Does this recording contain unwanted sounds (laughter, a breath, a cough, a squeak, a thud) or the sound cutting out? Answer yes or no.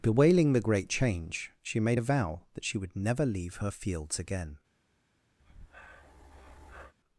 yes